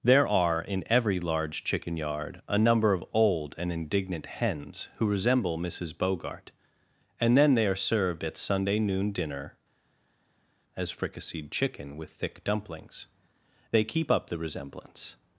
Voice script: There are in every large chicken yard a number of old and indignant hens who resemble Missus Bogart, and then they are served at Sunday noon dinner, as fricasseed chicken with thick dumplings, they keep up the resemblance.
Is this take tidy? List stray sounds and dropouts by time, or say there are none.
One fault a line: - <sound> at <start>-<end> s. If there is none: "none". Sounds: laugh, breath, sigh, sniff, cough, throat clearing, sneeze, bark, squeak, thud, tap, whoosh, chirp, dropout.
none